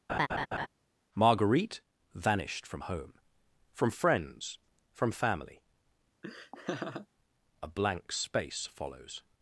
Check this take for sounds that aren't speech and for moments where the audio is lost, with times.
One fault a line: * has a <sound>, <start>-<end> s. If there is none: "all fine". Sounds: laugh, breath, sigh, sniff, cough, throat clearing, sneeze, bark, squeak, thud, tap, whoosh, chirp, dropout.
* has a laugh, 0.1-0.7 s
* has a laugh, 6.2-7.1 s